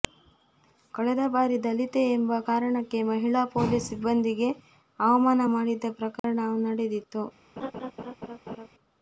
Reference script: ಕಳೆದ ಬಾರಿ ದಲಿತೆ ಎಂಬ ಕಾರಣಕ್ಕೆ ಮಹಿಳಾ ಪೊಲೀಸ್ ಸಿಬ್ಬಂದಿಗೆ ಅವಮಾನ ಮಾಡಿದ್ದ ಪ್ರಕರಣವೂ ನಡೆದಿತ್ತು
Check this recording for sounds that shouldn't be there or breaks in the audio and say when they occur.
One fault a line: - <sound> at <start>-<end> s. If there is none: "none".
- dropout at 6.2-6.2 s
- laugh at 7.6-8.7 s